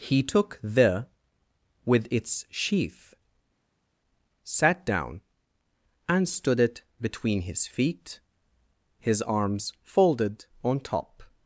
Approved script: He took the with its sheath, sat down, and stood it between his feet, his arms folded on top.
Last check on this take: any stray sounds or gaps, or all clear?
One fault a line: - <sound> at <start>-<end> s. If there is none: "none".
none